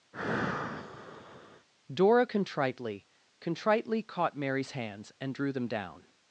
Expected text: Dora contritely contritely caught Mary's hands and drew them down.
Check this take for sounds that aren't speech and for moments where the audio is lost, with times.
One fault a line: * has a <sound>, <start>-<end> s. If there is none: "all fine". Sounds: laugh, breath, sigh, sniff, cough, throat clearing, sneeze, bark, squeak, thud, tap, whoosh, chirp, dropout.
* has a sigh, 0.1-1.7 s